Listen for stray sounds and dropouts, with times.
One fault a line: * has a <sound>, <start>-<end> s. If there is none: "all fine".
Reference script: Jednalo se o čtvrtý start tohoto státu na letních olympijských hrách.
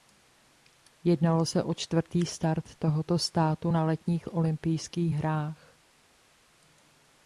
all fine